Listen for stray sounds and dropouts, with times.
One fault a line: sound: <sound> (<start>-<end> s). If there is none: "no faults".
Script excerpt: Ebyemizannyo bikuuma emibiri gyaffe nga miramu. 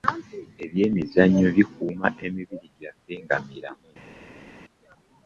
no faults